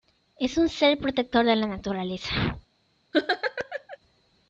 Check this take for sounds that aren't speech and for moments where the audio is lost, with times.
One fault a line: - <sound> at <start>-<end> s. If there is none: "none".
- laugh at 3.1-4.0 s